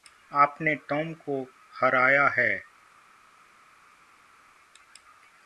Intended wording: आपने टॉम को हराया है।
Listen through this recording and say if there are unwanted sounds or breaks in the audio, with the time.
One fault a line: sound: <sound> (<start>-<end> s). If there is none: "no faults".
no faults